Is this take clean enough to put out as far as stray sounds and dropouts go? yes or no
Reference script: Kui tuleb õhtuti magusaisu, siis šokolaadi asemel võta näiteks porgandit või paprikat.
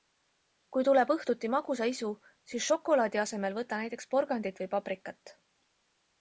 yes